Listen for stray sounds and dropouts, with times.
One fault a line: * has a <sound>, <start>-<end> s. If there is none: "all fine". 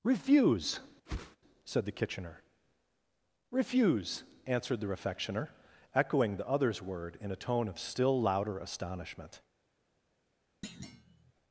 * has a whoosh, 1.1-1.4 s
* has a thud, 10.6-11.3 s